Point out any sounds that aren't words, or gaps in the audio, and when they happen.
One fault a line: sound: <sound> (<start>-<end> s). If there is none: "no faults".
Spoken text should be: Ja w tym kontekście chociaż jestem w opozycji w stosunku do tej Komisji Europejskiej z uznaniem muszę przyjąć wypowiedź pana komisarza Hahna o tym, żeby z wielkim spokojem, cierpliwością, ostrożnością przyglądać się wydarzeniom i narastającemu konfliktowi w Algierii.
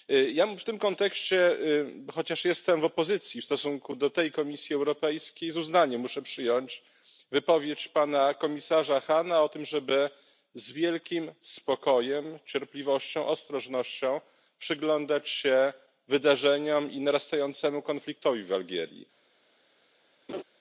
sound: laugh (20.3-20.4 s)